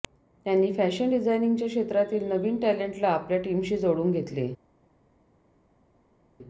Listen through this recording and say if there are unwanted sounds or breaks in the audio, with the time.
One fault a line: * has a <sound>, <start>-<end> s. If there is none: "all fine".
all fine